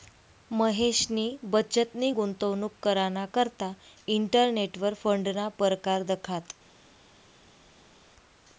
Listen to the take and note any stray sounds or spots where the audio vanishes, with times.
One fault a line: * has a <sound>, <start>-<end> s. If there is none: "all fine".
all fine